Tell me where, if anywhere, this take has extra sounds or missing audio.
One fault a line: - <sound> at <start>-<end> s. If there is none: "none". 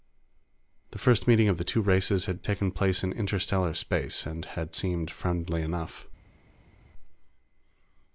none